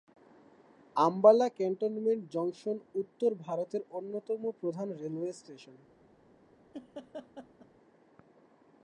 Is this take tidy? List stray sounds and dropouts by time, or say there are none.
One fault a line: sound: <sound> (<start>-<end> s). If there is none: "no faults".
sound: laugh (6.7-7.7 s)